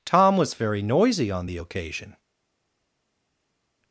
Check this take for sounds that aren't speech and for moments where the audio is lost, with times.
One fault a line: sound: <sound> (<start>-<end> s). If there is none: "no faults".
no faults